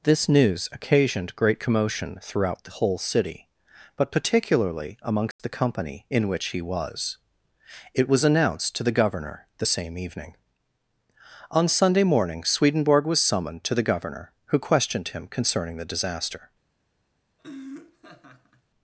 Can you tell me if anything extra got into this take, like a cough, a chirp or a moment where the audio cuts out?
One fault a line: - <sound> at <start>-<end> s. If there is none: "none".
- dropout at 5.3-5.4 s
- laugh at 17.4-18.6 s